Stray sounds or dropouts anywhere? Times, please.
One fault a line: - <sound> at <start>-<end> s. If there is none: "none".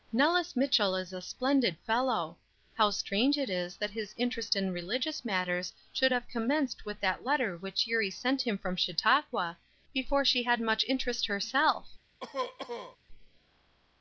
- cough at 12.2-13.0 s